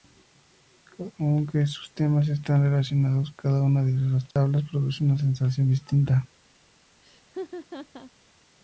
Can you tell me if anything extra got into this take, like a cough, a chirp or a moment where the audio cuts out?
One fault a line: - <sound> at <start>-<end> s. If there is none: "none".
- dropout at 4.3-4.4 s
- laugh at 7.0-8.1 s